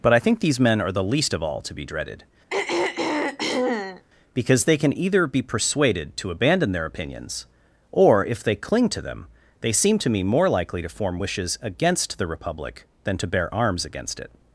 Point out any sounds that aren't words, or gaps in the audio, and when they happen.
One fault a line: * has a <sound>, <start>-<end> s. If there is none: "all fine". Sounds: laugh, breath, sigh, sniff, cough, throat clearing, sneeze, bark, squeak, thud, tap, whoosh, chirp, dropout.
* has a throat clearing, 2.5-4.0 s